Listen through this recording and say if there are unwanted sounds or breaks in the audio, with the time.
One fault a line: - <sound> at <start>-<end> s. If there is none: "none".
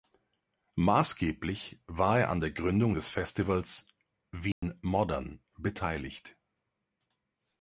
- dropout at 4.5-4.6 s